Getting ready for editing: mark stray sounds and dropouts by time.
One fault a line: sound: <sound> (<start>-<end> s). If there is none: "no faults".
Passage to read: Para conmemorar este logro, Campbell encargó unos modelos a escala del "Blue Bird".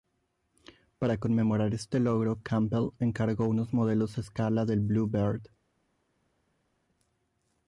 no faults